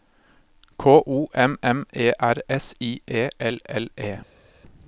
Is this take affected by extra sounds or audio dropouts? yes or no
no